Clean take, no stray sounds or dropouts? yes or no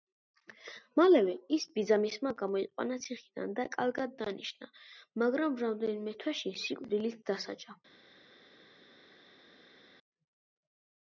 yes